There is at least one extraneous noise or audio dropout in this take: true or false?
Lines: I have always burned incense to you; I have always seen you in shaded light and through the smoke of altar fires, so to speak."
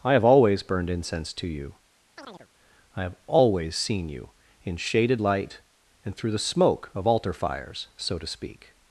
true